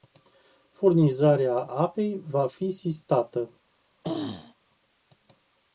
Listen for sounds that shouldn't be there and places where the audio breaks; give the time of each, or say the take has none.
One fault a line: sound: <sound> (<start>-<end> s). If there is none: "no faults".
sound: throat clearing (4.0-4.5 s)